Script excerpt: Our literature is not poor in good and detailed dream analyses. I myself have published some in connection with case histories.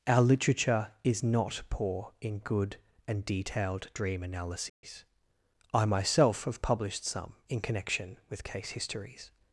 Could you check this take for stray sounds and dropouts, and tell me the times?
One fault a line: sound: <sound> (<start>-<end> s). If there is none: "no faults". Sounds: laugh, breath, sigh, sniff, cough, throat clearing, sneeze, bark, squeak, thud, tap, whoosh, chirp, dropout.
sound: dropout (4.7-4.8 s)